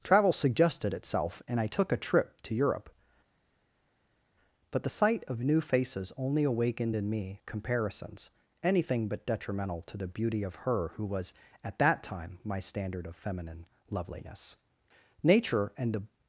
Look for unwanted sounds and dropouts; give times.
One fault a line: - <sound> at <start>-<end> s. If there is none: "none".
none